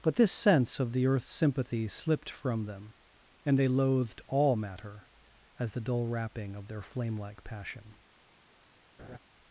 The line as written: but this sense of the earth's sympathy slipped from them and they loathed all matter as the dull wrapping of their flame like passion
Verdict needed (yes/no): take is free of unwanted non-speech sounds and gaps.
no